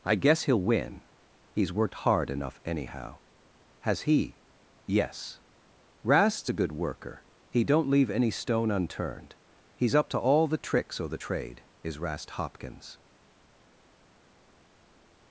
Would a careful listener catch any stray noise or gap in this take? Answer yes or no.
no